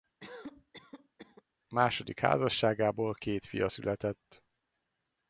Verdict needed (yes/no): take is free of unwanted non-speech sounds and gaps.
no